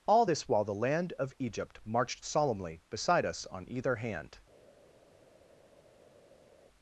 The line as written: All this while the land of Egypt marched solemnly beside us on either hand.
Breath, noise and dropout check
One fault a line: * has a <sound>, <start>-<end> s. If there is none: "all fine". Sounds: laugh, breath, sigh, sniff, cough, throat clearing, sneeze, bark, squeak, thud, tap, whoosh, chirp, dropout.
all fine